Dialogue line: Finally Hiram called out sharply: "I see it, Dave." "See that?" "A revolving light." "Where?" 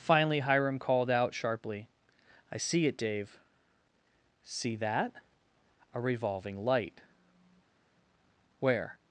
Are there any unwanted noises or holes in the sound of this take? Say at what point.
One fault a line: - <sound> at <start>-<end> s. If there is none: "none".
none